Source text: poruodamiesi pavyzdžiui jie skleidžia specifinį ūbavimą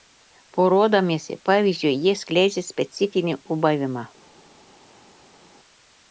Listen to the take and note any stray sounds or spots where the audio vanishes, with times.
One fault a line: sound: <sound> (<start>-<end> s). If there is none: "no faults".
no faults